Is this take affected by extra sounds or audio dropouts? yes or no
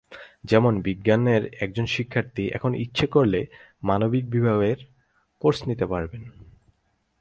no